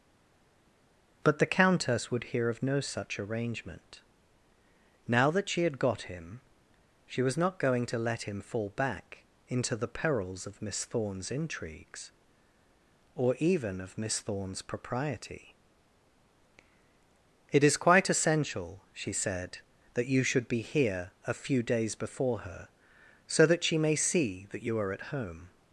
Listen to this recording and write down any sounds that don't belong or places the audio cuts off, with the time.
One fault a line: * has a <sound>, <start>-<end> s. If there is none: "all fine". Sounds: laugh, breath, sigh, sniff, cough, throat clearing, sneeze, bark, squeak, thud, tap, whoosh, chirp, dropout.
all fine